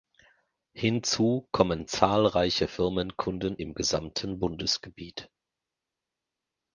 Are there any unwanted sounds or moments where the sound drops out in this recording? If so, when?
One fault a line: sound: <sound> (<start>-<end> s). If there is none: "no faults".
no faults